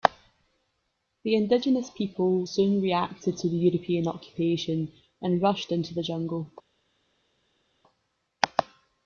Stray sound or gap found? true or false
false